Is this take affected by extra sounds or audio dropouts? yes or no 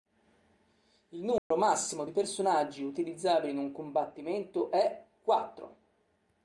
yes